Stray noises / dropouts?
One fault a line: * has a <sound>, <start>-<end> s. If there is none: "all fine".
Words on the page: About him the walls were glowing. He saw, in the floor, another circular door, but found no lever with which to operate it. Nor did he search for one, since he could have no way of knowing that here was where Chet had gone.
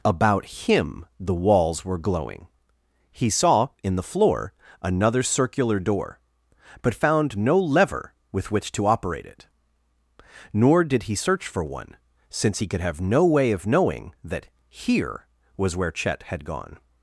all fine